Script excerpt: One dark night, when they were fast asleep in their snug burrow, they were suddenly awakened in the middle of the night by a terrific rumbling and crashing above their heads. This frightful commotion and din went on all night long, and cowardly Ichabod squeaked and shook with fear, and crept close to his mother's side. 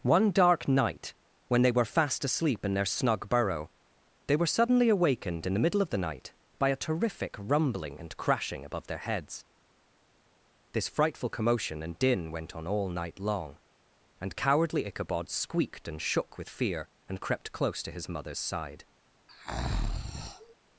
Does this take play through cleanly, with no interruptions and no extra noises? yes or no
no